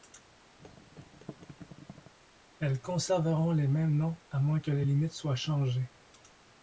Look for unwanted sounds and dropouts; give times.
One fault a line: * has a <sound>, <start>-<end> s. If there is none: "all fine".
* has a thud, 0.6-2.1 s